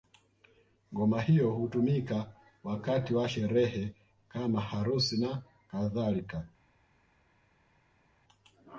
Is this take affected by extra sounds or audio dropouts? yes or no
no